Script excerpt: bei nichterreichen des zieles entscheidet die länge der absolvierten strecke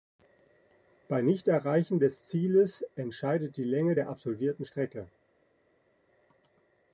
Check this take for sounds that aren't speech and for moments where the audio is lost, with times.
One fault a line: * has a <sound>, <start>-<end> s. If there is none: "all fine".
all fine